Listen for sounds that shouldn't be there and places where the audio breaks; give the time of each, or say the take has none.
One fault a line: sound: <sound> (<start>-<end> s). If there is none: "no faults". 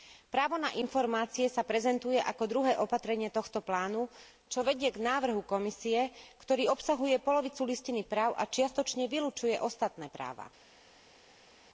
no faults